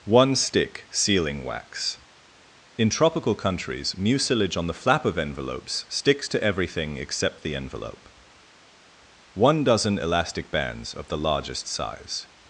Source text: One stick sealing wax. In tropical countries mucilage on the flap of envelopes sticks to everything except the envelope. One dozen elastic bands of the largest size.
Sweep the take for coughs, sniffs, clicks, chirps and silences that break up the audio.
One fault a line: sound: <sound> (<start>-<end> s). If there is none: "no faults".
no faults